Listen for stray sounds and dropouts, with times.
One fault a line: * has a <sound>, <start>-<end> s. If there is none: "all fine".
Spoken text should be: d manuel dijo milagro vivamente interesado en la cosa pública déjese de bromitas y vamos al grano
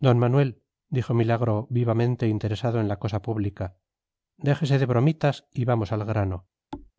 * has a thud, 6.7-6.9 s